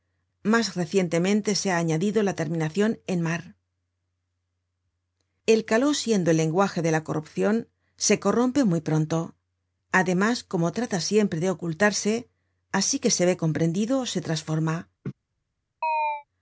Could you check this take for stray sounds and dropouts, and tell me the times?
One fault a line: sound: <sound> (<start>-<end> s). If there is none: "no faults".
sound: laugh (15.0-15.1 s)
sound: chirp (15.8-16.2 s)